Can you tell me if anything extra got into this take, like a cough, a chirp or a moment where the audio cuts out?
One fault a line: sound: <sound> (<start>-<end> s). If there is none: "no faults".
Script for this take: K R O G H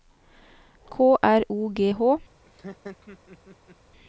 sound: laugh (2.4-3.8 s)